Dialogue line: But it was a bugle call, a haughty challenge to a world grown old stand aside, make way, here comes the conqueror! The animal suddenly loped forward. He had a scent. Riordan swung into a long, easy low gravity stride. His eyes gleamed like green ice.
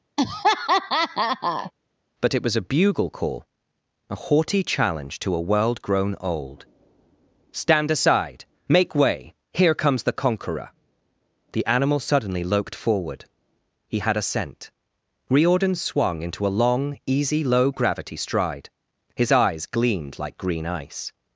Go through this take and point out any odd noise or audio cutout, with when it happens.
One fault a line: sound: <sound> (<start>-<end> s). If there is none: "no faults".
sound: laugh (0.2-1.7 s)